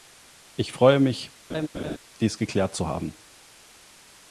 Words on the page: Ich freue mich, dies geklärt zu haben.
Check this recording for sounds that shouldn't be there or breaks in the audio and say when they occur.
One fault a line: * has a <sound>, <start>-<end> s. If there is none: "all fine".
* has a laugh, 1.5-2.0 s